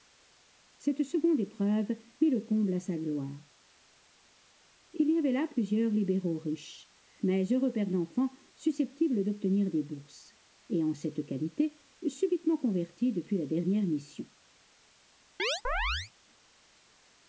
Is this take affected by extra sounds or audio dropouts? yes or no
yes